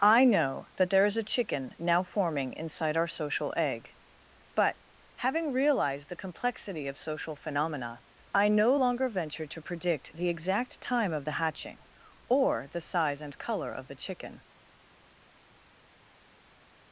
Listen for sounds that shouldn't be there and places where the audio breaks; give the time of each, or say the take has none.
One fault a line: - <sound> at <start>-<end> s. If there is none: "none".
none